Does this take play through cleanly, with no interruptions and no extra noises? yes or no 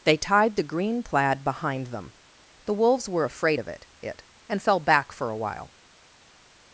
yes